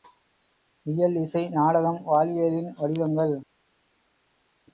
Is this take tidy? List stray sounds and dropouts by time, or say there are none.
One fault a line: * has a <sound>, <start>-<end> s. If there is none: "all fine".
all fine